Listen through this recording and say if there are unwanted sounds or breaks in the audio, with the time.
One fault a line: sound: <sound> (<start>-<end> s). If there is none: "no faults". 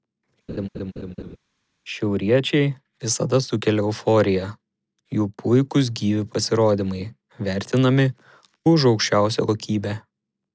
sound: laugh (0.5-1.4 s)